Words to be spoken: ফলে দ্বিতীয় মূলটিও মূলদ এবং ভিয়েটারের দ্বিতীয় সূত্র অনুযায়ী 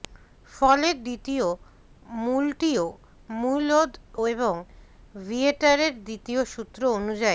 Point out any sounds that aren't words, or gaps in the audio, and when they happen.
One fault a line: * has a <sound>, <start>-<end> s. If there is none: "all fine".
all fine